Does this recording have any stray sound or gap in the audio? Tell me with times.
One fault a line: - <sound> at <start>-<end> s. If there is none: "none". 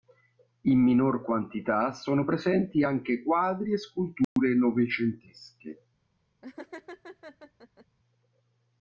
- dropout at 4.2-4.4 s
- laugh at 6.4-7.9 s